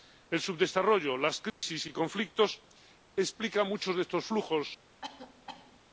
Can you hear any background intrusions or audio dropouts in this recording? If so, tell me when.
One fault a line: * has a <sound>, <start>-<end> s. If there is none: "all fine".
* has a dropout, 1.5-1.6 s
* has a cough, 5.0-5.8 s